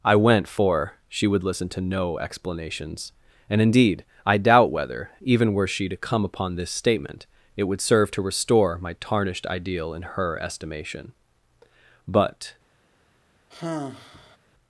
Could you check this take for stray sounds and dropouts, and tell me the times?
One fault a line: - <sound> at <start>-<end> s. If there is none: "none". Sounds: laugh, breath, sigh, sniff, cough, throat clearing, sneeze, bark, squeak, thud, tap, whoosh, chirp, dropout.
- sigh at 13.5-14.4 s